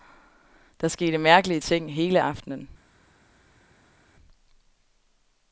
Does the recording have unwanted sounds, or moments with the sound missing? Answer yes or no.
no